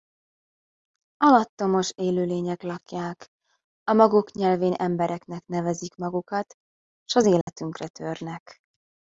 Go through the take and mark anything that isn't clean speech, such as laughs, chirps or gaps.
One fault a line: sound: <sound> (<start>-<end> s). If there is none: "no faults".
sound: dropout (7.4-7.5 s)